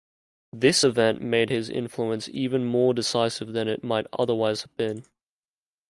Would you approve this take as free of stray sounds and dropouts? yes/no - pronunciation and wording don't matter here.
yes